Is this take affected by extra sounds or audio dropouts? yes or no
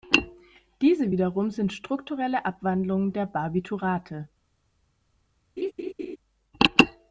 yes